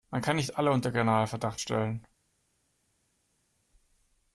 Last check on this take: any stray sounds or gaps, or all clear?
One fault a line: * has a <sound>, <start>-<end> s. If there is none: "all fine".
all fine